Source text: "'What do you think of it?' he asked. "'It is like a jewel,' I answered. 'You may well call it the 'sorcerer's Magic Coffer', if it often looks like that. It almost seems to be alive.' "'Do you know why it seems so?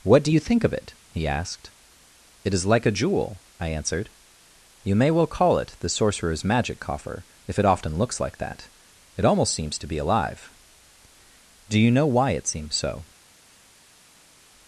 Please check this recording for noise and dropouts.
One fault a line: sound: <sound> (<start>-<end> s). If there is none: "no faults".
no faults